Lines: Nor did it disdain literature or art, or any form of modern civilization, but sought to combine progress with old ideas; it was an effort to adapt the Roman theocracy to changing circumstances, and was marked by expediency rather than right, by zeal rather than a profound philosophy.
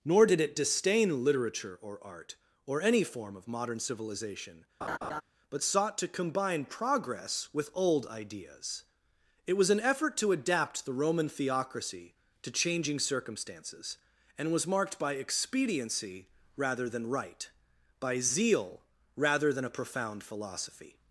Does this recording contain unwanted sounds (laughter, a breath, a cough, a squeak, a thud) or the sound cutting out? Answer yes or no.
yes